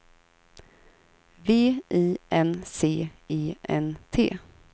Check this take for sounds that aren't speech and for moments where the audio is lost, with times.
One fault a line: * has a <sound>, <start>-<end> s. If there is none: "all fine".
all fine